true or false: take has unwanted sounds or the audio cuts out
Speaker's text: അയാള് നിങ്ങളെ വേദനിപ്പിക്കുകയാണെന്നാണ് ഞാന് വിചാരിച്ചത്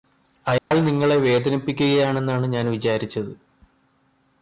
true